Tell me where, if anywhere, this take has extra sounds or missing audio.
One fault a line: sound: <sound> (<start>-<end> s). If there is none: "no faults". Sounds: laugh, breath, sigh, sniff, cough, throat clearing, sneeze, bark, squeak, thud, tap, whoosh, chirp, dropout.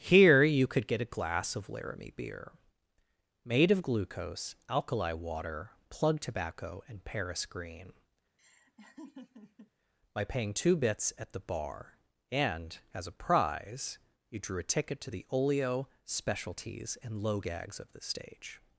sound: laugh (8.4-9.7 s)